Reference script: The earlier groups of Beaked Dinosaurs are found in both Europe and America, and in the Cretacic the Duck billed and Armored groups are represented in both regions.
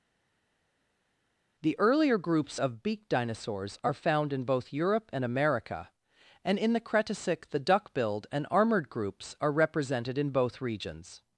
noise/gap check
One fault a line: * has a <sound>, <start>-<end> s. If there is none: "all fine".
all fine